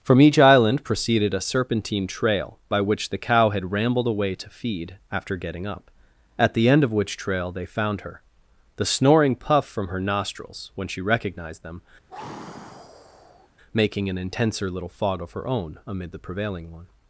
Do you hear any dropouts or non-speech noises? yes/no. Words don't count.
yes